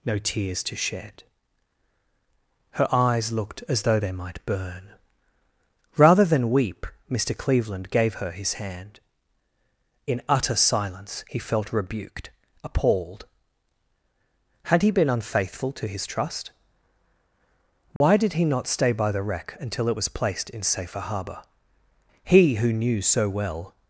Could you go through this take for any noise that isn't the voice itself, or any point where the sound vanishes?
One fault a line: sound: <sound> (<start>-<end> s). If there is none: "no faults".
sound: dropout (18.0-18.0 s)